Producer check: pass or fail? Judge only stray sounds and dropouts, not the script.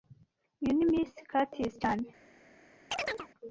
fail